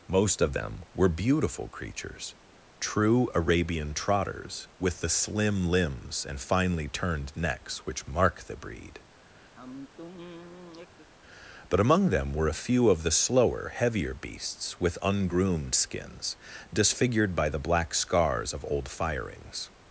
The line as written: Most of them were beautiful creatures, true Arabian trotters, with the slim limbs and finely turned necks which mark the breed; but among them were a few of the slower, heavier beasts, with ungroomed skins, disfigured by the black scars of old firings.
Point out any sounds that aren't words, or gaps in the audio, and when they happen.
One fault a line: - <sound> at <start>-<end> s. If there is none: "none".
- sigh at 9.5-11.1 s